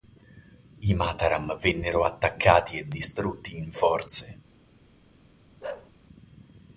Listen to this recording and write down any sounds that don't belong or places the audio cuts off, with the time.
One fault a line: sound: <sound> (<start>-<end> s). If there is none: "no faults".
sound: bark (5.6-5.9 s)